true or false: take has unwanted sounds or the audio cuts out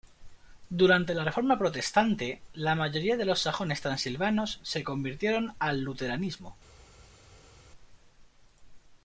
false